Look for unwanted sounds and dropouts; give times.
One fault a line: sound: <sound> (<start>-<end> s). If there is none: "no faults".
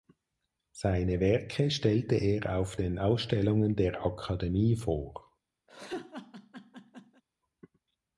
sound: laugh (5.7-7.2 s)